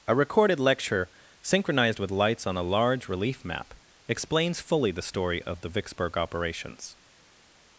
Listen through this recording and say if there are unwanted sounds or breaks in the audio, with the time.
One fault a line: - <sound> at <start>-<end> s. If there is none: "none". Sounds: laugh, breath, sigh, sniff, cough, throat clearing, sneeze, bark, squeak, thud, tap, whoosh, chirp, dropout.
none